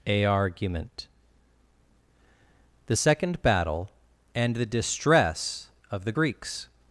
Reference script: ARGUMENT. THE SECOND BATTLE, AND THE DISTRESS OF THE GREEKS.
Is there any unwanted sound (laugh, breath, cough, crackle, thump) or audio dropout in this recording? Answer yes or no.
no